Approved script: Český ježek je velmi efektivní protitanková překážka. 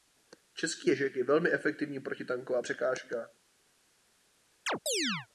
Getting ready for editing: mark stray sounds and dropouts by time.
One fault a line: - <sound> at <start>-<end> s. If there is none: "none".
- chirp at 4.7-5.3 s